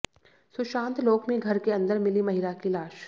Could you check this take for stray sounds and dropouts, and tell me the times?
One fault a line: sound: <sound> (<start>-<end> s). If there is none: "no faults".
no faults